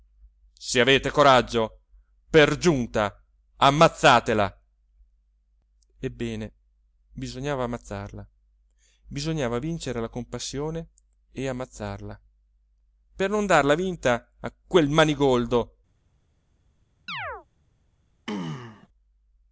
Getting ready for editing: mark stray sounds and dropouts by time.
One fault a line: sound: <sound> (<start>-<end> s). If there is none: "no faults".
sound: chirp (17.1-17.5 s)
sound: throat clearing (18.3-18.9 s)